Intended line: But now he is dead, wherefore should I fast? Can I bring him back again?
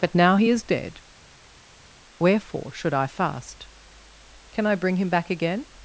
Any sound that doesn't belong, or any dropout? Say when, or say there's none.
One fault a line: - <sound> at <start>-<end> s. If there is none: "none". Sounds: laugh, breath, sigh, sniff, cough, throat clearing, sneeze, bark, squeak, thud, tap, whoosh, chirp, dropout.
none